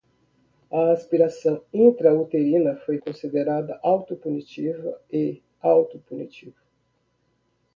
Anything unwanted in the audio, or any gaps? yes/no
no